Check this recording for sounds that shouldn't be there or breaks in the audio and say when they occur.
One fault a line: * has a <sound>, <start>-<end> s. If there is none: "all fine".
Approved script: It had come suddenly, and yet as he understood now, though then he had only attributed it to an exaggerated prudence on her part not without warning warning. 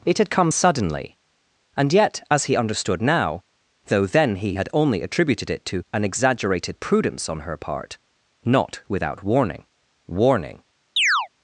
* has a chirp, 11.0-11.3 s